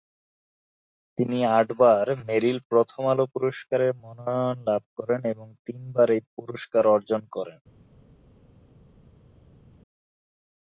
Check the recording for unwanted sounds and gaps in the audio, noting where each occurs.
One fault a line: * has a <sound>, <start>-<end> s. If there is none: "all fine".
all fine